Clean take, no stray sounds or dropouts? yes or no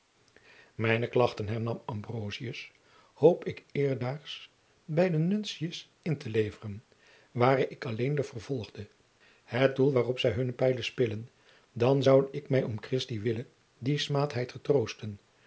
yes